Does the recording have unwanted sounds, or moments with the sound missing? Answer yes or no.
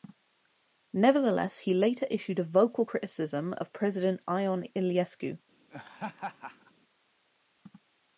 yes